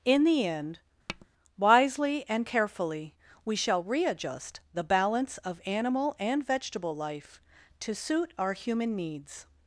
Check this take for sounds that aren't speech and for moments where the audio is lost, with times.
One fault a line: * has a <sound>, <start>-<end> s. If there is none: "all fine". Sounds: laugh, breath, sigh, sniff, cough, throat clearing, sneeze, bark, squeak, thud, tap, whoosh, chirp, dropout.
* has a tap, 1.1-1.3 s